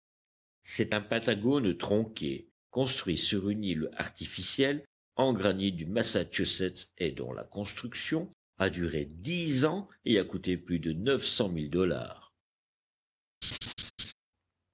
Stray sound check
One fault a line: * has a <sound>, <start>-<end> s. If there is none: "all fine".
* has a laugh, 13.4-14.1 s